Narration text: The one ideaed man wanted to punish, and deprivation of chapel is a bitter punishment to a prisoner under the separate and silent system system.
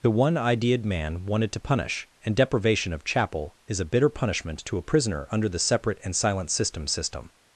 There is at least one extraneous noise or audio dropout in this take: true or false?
false